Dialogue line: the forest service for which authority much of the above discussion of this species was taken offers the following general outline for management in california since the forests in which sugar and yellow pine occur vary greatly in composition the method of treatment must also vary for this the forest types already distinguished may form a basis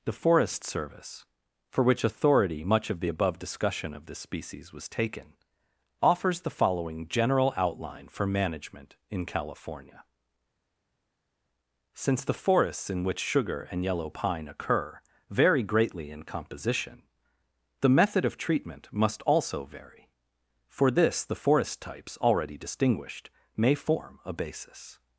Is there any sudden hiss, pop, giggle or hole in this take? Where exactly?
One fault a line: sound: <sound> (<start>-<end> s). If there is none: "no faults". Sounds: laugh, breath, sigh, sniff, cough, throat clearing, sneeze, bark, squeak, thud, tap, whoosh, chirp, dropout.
no faults